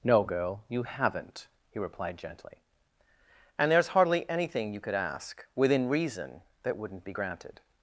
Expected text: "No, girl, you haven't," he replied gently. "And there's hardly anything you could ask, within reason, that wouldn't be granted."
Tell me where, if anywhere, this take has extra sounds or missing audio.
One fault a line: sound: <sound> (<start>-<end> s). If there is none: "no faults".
no faults